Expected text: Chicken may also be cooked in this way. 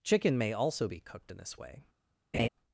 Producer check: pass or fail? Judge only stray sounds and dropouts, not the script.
fail